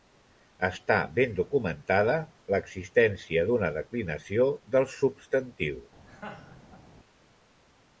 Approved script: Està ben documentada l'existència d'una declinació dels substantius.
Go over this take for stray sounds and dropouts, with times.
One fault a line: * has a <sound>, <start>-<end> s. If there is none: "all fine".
* has a laugh, 6.1-6.9 s